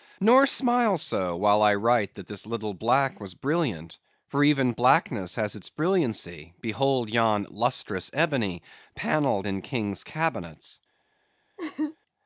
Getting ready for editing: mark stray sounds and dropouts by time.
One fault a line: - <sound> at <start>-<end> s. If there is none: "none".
- laugh at 11.6-12.0 s